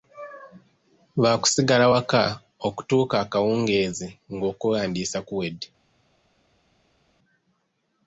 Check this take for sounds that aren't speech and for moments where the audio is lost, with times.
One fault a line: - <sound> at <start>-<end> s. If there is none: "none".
none